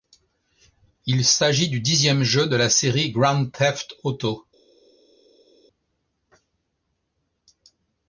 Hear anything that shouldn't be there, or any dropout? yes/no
no